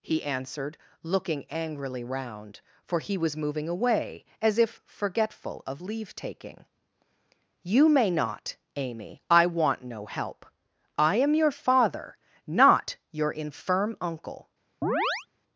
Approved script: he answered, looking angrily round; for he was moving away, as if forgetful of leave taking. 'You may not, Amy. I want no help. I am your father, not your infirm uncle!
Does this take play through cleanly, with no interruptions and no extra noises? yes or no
no